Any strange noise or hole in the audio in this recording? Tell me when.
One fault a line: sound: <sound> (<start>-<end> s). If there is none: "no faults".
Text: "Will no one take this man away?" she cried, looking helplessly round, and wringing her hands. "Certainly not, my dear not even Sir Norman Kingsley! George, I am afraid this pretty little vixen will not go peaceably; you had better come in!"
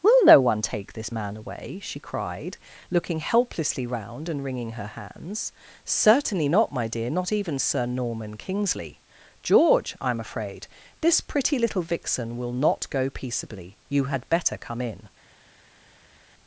no faults